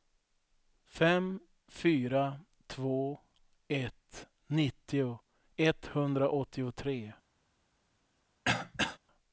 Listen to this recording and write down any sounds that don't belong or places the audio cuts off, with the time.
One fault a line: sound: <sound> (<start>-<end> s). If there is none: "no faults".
sound: throat clearing (8.5-9.0 s)